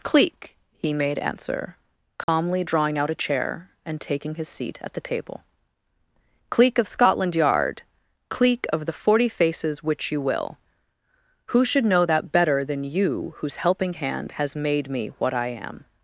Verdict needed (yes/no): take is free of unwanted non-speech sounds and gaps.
no